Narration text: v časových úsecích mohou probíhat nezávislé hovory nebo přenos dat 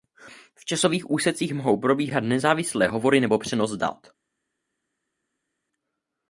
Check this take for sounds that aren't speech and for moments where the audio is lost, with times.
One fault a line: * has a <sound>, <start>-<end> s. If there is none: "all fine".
all fine